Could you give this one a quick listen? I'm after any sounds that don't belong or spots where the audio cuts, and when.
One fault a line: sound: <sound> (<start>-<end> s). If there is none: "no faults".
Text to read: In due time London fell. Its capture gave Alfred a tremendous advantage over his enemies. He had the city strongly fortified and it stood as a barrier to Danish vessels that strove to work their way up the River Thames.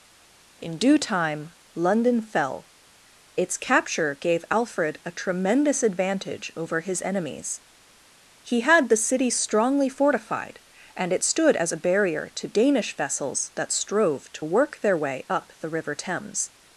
no faults